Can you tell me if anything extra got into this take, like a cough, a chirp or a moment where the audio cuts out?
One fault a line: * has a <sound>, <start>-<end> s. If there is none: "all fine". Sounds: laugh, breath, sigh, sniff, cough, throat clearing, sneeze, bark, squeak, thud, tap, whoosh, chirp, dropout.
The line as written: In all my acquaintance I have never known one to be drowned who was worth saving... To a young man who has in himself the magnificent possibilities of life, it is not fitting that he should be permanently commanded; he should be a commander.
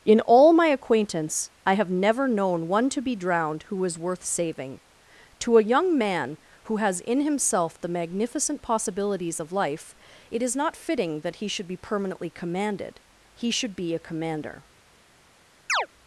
* has a chirp, 15.7-15.9 s